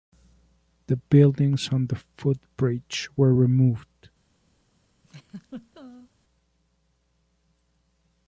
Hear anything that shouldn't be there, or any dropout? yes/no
yes